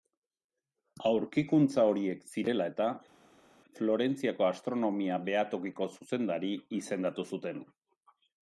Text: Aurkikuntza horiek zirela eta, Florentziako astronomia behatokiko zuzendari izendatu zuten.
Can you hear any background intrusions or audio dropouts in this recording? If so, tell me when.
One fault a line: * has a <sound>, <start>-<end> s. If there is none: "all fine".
all fine